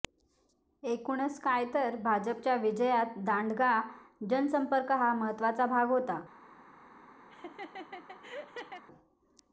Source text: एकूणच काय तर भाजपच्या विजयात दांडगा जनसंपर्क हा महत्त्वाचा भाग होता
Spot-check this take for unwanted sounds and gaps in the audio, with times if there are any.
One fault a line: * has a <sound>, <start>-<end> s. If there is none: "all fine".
* has a laugh, 7.3-8.8 s